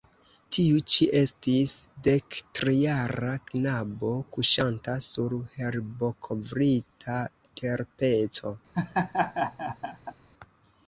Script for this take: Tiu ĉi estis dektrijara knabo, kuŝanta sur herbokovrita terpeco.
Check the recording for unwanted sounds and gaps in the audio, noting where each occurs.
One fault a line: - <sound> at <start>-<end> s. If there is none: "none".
- laugh at 8.7-10.1 s